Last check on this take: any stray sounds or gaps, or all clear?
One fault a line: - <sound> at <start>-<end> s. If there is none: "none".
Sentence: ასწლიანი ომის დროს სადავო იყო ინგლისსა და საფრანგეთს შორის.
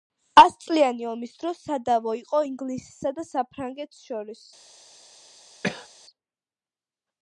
- cough at 5.6-5.9 s